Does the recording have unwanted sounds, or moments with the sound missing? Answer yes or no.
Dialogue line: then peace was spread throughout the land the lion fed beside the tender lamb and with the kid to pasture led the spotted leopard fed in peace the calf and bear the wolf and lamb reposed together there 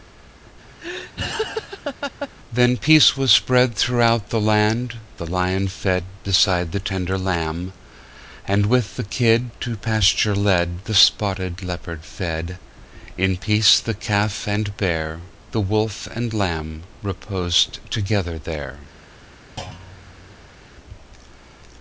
yes